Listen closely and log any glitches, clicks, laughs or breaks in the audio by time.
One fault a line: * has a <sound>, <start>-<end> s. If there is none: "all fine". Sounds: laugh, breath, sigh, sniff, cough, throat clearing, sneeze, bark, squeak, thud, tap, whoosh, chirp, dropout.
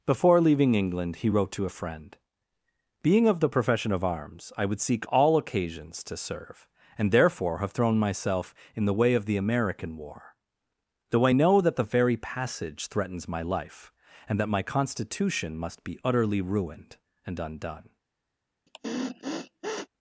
* has a sniff, 18.7-19.9 s